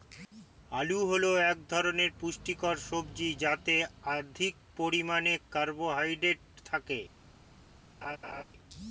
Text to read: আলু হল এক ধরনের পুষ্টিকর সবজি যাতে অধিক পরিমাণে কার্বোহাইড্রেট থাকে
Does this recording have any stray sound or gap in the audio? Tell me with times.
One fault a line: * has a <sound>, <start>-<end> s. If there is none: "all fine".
* has a laugh, 8.0-8.4 s